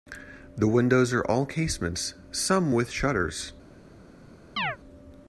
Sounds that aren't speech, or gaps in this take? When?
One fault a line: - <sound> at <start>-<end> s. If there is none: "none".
- chirp at 4.6-4.8 s